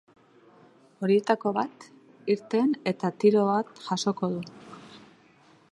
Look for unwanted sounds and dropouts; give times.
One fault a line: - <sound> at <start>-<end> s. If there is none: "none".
none